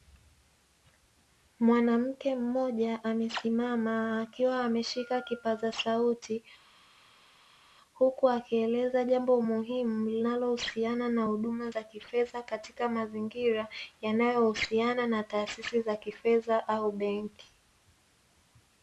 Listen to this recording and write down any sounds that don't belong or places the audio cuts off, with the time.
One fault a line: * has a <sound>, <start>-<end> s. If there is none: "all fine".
all fine